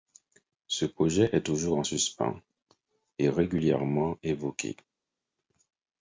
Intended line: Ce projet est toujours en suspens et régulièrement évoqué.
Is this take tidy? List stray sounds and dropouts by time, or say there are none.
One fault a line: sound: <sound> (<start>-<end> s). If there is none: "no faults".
no faults